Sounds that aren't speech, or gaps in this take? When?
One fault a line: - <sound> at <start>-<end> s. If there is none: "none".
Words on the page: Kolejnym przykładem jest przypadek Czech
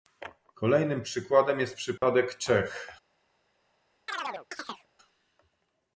- dropout at 2.0-2.0 s
- chirp at 4.1-4.9 s